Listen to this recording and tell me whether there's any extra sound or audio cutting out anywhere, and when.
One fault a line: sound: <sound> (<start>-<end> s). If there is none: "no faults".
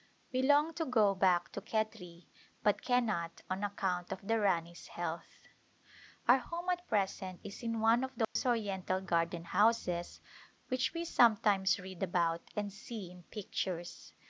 sound: dropout (8.2-8.4 s)